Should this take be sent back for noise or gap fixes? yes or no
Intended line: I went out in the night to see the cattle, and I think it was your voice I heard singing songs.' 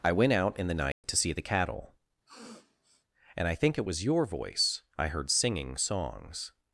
yes